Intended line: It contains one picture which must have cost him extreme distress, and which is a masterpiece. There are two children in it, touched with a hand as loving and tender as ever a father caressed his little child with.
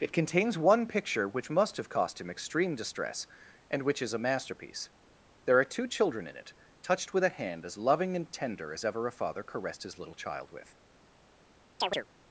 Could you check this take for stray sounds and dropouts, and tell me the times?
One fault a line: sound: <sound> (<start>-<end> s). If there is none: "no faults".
sound: chirp (11.8-12.1 s)